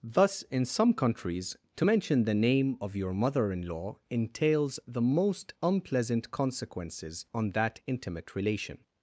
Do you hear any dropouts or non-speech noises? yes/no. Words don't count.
no